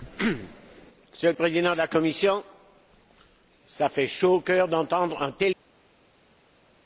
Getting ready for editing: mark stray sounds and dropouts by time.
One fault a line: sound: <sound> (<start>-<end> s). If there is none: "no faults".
no faults